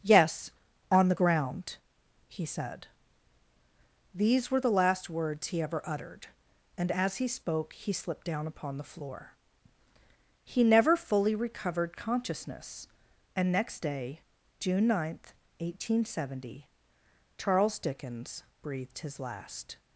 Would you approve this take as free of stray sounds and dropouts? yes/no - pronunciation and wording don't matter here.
yes